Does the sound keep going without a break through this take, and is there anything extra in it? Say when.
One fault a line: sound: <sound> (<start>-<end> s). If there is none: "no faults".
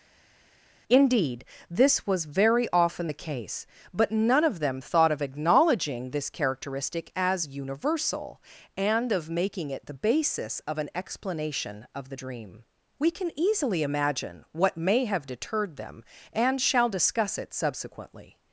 no faults